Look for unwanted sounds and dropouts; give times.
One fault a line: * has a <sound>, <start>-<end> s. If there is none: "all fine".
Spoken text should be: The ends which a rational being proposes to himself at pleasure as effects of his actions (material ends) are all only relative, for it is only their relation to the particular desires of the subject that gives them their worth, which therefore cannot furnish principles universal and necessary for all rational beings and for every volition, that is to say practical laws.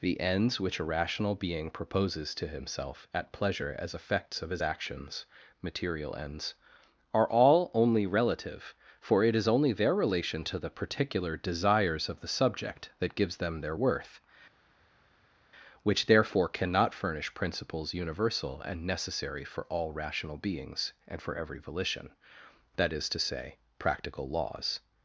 all fine